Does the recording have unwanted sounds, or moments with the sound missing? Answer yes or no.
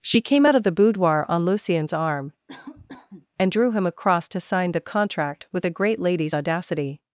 yes